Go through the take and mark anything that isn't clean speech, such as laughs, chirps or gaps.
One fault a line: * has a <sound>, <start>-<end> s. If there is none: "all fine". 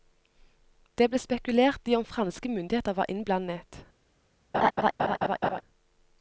* has a laugh, 4.5-5.6 s